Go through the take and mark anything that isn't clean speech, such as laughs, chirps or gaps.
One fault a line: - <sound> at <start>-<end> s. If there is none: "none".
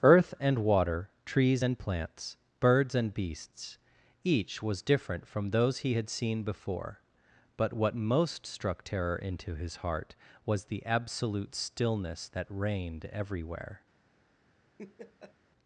- laugh at 14.8-15.4 s